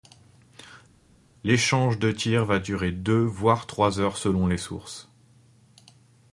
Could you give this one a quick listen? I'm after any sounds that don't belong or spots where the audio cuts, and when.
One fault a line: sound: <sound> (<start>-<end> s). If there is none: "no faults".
no faults